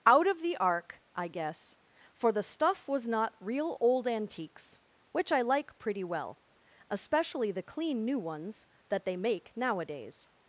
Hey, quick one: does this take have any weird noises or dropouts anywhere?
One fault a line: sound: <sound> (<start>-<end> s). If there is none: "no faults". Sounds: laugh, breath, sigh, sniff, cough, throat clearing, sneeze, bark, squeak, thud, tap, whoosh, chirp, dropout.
no faults